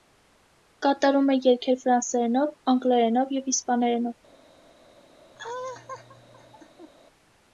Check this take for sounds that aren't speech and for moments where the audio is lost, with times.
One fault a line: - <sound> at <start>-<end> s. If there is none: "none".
- laugh at 5.3-6.9 s